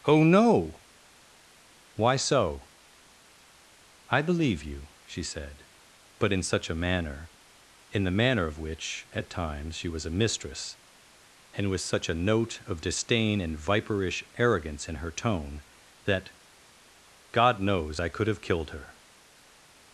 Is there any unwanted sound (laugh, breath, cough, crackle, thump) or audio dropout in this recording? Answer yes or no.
no